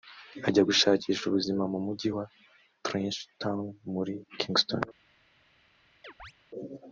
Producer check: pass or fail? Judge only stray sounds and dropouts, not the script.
fail